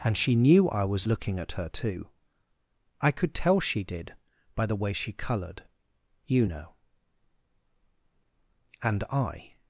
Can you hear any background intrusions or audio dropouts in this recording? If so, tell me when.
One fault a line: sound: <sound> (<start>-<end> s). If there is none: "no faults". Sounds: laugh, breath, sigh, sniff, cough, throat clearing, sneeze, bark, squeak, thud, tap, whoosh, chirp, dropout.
no faults